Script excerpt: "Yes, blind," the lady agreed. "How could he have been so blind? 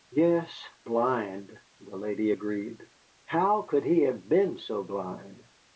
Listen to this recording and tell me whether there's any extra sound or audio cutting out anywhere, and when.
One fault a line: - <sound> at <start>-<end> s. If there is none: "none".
none